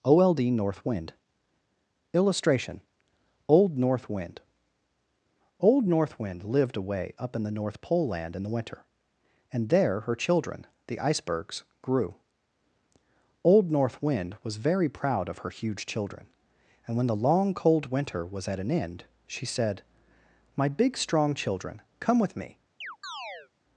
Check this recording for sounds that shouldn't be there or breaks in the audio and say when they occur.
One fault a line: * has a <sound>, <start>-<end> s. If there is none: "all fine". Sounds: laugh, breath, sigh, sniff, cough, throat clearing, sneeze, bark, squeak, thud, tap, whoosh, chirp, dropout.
* has a chirp, 22.8-23.5 s